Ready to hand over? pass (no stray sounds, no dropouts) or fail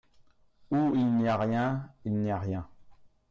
pass